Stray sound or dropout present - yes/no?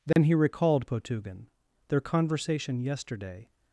yes